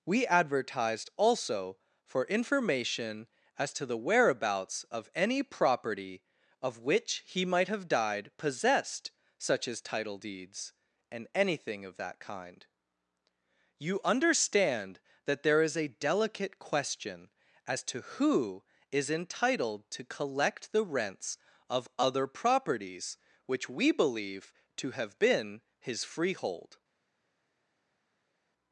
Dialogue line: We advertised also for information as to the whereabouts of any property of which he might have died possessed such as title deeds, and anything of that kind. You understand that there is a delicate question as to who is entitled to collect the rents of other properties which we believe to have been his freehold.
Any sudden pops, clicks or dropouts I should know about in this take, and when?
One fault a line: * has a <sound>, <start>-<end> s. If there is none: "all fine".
all fine